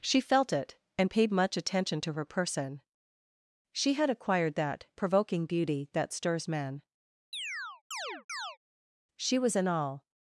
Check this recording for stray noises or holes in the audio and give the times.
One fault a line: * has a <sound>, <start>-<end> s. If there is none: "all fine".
* has a chirp, 7.3-8.6 s